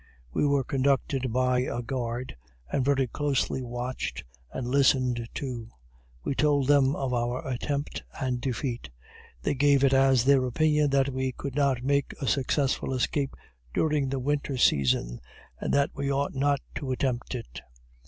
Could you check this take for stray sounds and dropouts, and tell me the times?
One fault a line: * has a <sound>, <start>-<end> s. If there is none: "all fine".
all fine